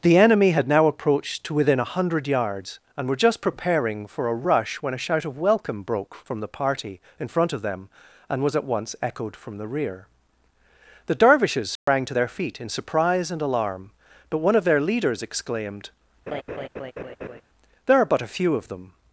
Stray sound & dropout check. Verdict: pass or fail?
fail